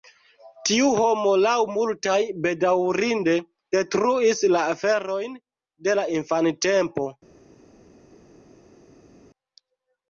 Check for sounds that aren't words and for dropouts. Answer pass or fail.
pass